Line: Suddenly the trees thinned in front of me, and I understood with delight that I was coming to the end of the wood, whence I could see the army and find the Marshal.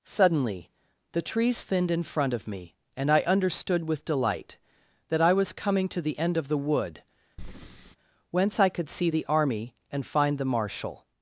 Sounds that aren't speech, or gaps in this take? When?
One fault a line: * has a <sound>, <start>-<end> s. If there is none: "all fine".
* has a breath, 7.4-8.0 s